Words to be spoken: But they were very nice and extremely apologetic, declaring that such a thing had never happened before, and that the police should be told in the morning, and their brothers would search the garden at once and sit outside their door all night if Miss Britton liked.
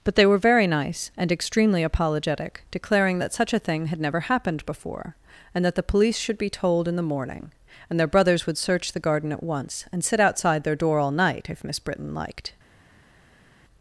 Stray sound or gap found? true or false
false